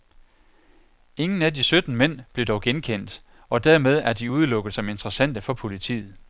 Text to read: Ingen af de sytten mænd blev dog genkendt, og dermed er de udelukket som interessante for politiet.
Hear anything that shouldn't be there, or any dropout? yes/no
no